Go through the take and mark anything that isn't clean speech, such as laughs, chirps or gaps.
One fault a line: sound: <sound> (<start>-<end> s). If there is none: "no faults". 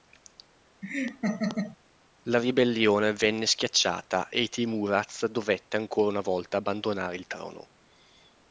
sound: laugh (0.8-1.8 s)